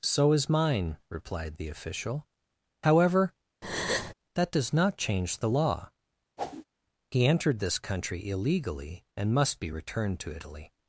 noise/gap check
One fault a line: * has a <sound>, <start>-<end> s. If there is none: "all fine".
* has a breath, 3.6-4.1 s
* has a whoosh, 6.4-6.7 s